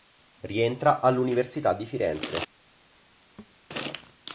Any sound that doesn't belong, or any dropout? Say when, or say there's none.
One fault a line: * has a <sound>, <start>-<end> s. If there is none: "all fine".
* has a thud, 3.4-3.6 s